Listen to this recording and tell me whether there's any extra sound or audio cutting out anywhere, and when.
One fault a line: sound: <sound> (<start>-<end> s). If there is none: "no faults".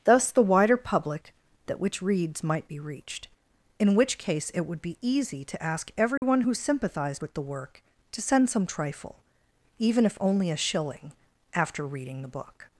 sound: dropout (6.2-6.2 s)